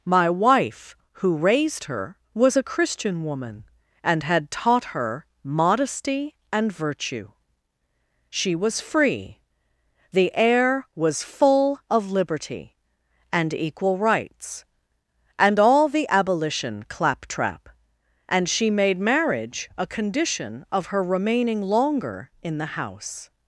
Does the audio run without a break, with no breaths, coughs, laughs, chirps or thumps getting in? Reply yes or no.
yes